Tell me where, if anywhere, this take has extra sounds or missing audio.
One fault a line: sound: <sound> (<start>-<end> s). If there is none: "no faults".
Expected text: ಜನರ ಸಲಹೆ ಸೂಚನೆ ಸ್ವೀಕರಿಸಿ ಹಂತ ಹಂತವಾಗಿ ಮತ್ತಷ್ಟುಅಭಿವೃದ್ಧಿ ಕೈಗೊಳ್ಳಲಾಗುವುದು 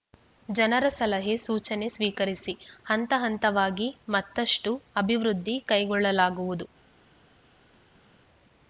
no faults